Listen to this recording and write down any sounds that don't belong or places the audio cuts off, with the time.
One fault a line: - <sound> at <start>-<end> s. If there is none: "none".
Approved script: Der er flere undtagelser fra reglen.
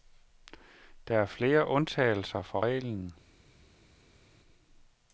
none